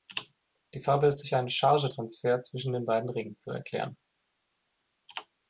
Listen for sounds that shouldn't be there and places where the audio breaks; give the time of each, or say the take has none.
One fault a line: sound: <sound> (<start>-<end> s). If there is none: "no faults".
no faults